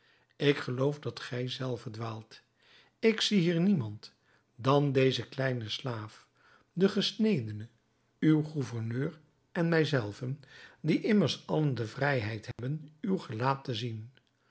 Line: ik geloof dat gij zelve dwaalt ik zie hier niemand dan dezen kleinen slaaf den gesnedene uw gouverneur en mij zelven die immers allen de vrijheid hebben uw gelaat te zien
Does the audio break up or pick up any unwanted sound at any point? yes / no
yes